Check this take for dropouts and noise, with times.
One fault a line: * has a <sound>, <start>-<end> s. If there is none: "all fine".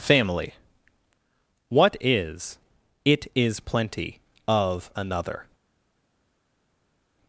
all fine